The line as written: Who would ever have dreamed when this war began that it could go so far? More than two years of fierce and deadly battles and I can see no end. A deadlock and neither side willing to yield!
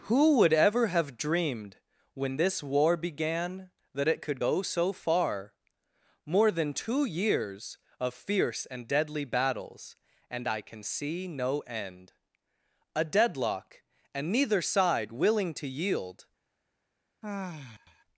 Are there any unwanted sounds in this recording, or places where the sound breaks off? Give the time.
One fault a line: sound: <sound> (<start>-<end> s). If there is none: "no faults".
sound: sigh (17.2-18.0 s)